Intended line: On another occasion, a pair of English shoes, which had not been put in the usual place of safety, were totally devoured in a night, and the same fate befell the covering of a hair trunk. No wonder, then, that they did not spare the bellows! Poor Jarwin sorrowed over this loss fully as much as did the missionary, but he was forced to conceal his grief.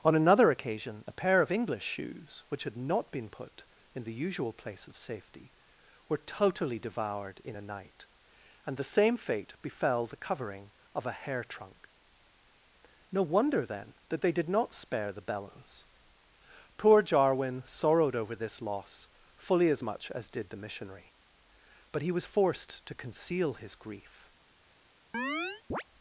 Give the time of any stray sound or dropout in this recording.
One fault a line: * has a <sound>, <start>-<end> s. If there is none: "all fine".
* has a chirp, 25.1-25.8 s